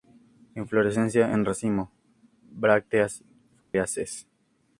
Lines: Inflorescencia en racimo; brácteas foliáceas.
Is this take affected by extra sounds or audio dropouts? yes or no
yes